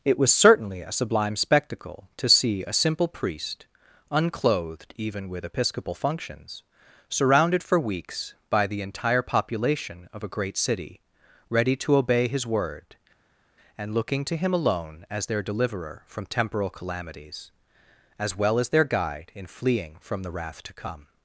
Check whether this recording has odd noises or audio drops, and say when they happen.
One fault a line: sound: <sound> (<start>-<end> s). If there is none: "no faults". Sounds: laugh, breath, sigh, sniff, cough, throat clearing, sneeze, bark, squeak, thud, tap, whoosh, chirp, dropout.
no faults